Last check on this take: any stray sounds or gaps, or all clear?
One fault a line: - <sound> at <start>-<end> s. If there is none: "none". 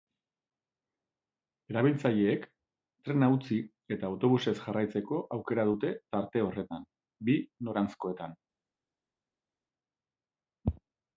none